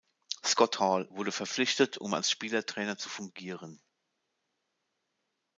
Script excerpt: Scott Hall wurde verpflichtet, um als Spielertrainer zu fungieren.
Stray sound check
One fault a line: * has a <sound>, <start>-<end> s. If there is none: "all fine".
all fine